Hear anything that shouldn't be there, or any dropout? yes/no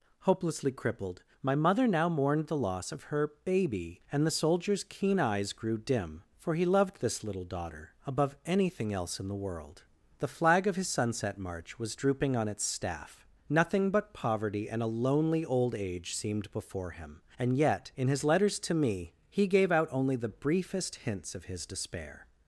no